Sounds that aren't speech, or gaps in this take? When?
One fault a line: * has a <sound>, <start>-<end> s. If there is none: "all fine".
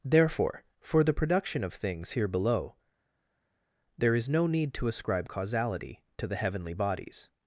all fine